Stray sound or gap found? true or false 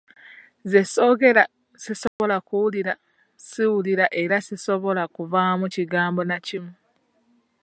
true